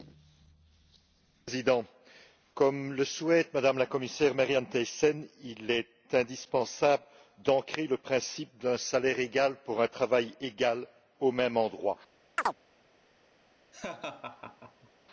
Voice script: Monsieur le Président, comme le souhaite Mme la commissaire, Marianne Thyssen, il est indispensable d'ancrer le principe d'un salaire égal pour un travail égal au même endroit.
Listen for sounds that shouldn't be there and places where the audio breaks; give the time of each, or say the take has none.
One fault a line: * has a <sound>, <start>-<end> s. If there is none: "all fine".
* has a chirp, 12.4-12.6 s
* has a laugh, 13.7-14.9 s